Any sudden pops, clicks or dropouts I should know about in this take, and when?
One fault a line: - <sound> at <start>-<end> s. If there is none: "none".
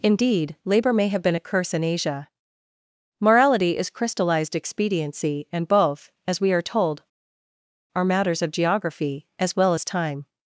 none